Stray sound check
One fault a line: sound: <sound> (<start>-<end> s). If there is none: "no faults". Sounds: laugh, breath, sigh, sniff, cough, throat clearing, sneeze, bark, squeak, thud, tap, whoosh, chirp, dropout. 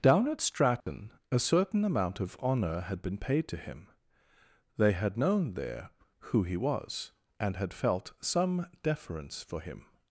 sound: dropout (0.8-0.9 s)